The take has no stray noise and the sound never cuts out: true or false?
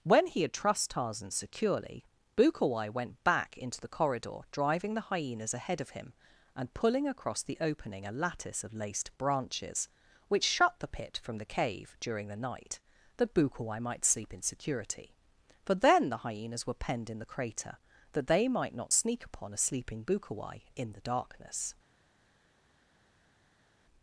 true